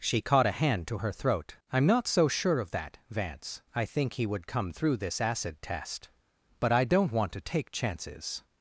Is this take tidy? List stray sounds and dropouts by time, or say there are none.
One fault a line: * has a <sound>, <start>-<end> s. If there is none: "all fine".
all fine